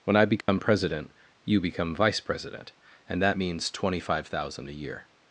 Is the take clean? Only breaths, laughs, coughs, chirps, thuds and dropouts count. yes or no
no